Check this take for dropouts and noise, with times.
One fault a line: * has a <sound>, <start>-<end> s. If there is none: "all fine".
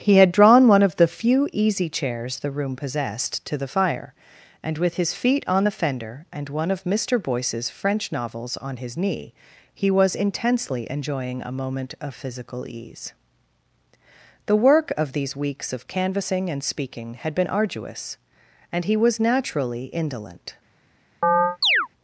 * has a chirp, 21.2-21.9 s